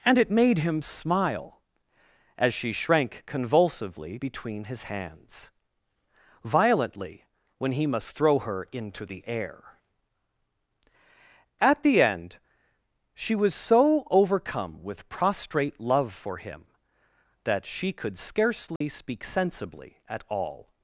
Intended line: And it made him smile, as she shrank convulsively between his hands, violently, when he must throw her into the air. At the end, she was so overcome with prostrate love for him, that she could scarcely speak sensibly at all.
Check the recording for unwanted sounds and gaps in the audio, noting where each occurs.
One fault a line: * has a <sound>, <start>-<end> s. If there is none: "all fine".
* has a dropout, 18.8-18.8 s